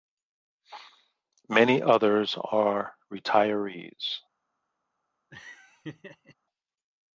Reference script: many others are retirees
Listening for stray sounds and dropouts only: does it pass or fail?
fail